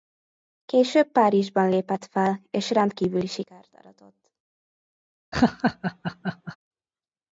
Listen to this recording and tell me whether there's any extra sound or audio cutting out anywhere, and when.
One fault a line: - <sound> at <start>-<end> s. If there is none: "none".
- laugh at 5.3-6.6 s